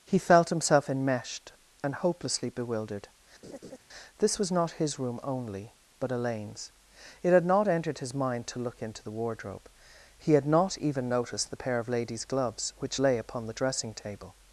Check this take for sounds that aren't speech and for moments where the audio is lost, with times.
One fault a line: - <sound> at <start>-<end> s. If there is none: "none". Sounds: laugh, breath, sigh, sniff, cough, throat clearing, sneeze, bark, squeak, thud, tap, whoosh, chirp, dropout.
- laugh at 3.4-3.8 s